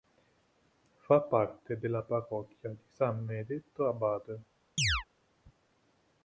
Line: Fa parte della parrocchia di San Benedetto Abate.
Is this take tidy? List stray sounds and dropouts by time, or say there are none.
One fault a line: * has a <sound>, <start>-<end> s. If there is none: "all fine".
* has a chirp, 4.8-5.0 s